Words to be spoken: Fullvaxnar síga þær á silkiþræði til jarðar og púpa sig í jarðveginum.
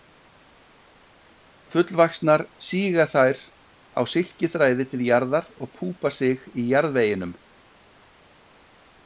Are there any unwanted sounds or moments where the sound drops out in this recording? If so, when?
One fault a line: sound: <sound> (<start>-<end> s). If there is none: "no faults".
no faults